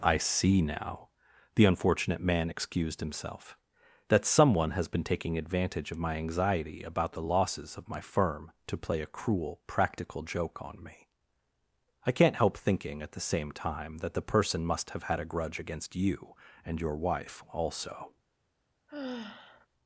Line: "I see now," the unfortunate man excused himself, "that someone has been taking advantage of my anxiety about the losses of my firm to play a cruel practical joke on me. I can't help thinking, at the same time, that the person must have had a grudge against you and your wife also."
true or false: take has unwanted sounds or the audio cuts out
true